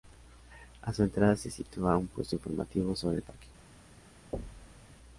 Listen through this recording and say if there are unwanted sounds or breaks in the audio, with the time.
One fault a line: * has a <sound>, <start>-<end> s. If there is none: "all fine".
* has a thud, 4.3-4.9 s